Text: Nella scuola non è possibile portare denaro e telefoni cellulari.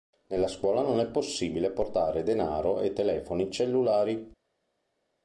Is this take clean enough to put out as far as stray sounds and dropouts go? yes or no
yes